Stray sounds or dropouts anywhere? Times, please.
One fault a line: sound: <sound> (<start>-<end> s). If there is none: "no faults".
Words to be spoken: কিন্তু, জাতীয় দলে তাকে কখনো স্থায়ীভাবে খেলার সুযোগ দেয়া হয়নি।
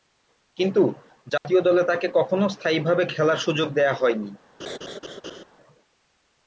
sound: dropout (1.4-1.4 s)
sound: laugh (4.6-5.4 s)